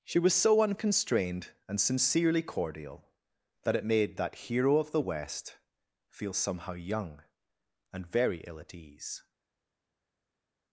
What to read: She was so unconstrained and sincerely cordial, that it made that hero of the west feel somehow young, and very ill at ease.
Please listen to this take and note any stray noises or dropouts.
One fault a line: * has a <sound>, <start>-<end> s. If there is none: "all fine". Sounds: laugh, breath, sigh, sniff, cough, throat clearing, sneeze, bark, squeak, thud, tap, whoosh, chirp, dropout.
all fine